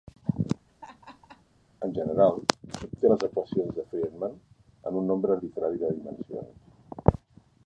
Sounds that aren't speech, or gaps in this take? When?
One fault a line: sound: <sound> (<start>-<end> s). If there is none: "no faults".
sound: laugh (0.7-1.4 s)